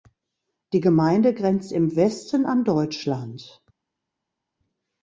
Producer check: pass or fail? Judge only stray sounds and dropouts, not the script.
pass